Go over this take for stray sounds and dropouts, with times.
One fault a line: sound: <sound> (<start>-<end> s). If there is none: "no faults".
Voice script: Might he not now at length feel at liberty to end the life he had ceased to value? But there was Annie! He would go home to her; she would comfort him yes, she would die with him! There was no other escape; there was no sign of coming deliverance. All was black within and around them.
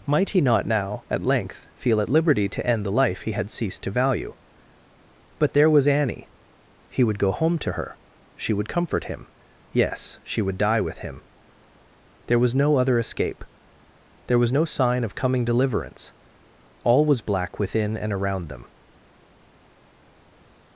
no faults